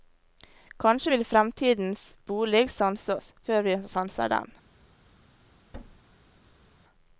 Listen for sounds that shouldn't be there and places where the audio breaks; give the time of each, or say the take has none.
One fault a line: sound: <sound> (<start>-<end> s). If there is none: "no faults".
sound: thud (5.7-6.7 s)